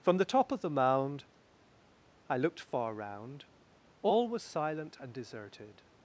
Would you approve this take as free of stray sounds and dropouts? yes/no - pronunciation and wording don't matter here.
yes